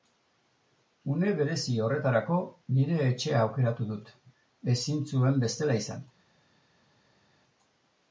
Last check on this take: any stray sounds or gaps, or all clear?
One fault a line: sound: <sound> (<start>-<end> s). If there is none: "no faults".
no faults